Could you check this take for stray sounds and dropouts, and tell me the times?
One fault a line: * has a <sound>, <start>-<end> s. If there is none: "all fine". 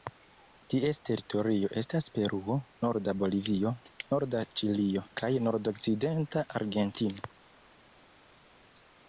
all fine